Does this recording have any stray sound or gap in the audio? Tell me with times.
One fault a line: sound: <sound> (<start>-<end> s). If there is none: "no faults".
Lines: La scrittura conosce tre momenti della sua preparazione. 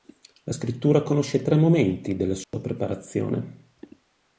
sound: dropout (2.4-2.5 s)